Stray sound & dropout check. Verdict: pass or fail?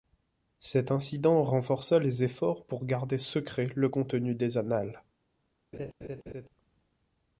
fail